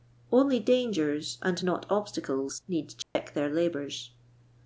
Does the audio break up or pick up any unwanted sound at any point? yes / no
yes